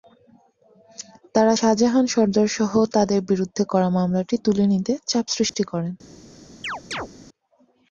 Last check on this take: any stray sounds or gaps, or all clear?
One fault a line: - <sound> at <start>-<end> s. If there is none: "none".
- dropout at 5.5-5.5 s
- chirp at 6.6-7.1 s